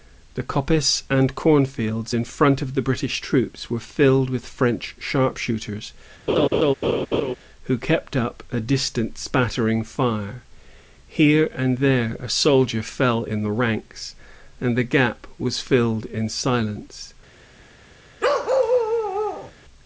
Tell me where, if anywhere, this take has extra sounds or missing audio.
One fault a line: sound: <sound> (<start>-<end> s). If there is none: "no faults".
sound: laugh (6.3-7.4 s)
sound: bark (18.2-19.5 s)